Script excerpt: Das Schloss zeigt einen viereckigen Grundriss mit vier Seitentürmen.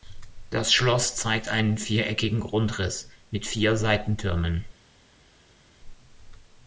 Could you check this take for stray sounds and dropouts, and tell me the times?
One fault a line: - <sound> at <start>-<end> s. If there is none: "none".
none